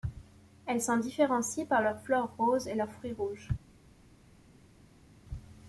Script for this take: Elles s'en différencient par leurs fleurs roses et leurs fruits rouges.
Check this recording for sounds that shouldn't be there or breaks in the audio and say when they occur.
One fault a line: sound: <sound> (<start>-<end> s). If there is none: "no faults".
no faults